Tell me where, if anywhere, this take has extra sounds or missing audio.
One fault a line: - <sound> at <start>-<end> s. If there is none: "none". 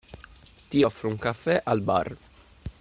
none